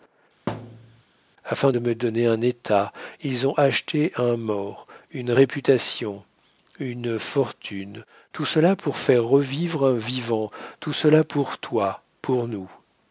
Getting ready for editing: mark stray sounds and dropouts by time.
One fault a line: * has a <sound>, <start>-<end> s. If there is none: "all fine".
* has a thud, 0.5-1.0 s